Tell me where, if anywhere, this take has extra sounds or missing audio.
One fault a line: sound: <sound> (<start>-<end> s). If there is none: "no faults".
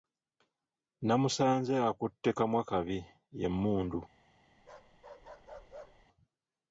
sound: bark (4.6-6.1 s)